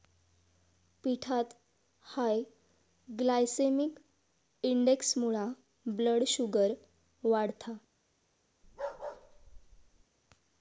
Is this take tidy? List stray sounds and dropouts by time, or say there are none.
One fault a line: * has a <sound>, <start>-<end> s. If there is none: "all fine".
* has a bark, 8.6-10.0 s